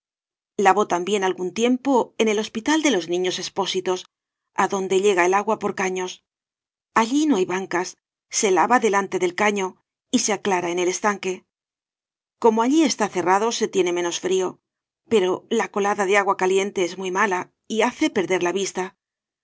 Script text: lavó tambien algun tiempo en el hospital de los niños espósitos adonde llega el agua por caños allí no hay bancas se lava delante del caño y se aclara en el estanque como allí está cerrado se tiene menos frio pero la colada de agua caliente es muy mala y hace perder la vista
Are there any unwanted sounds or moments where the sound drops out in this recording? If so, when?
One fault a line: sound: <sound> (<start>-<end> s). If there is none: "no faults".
no faults